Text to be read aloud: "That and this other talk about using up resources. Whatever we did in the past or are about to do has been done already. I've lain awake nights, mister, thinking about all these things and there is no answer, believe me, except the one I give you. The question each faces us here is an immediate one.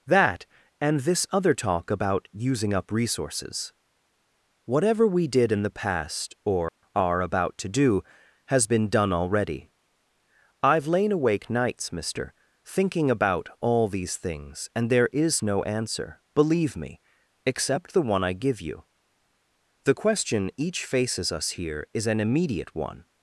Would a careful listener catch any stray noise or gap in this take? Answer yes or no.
yes